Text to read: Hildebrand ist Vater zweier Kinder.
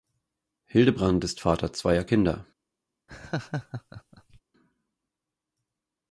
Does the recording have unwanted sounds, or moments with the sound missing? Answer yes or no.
yes